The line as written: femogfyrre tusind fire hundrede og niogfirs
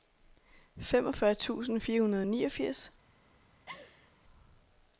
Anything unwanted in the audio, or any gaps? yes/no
yes